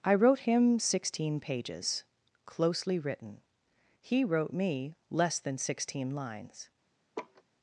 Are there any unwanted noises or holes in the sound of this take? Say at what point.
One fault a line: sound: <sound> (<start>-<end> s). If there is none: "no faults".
sound: laugh (7.2-7.4 s)